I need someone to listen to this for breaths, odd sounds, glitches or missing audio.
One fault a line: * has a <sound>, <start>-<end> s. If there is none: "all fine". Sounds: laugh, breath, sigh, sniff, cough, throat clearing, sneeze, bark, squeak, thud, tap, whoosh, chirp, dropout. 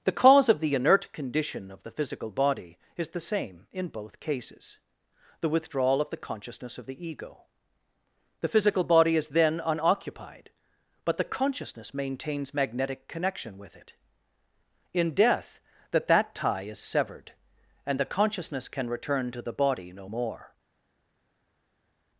all fine